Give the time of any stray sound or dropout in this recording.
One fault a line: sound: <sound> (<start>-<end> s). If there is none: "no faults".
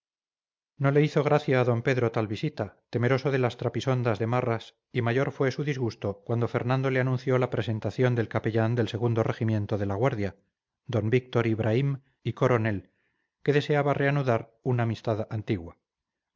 no faults